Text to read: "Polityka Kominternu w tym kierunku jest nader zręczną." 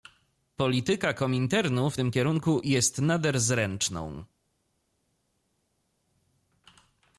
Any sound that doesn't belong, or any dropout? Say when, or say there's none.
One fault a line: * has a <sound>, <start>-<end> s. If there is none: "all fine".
all fine